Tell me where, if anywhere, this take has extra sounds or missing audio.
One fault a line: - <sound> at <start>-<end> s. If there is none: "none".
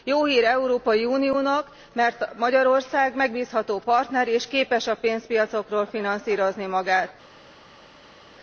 none